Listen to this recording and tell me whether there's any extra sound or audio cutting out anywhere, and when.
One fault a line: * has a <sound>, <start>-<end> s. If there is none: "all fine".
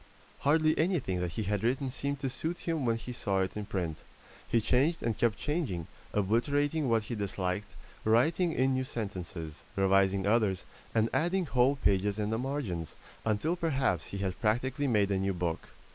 all fine